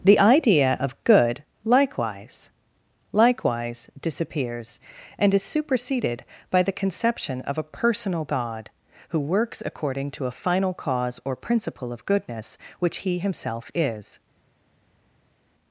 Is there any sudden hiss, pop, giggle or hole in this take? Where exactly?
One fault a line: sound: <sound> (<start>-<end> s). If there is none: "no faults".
no faults